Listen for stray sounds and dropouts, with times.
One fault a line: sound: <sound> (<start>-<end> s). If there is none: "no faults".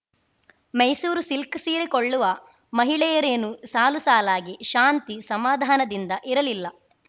no faults